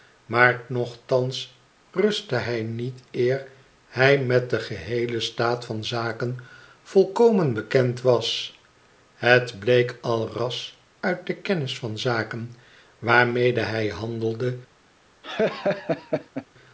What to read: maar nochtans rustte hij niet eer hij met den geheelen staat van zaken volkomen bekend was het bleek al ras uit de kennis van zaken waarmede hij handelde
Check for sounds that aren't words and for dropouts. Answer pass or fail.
fail